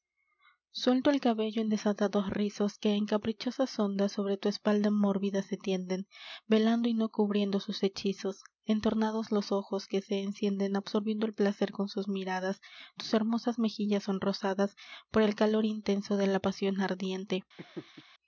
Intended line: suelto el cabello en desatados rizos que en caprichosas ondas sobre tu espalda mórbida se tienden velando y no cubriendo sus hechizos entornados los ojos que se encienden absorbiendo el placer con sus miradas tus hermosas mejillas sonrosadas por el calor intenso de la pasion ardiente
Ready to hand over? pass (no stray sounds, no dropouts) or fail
fail